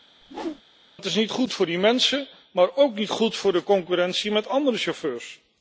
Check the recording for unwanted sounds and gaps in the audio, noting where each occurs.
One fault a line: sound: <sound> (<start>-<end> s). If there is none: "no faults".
sound: whoosh (0.2-0.6 s)